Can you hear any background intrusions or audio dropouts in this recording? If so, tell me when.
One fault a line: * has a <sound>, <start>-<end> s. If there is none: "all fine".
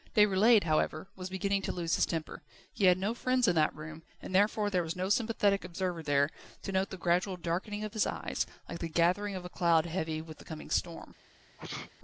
* has a sneeze, 11.6-11.9 s